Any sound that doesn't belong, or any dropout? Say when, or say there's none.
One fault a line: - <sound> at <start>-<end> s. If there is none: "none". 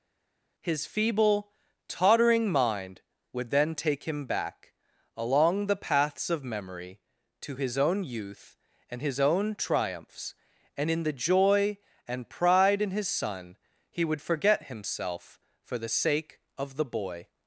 none